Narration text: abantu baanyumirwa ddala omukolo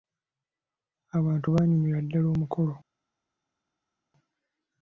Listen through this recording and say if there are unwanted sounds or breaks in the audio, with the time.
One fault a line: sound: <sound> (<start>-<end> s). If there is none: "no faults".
no faults